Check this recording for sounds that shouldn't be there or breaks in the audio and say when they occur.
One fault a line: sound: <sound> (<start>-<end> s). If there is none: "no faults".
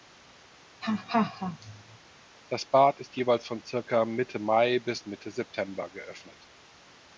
sound: laugh (0.8-2.0 s)